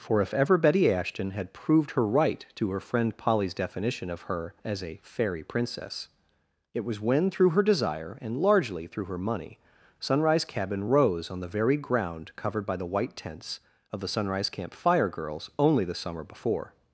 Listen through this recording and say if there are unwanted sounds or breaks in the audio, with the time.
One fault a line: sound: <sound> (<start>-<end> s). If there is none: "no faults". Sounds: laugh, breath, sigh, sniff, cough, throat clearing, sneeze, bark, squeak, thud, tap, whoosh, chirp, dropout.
no faults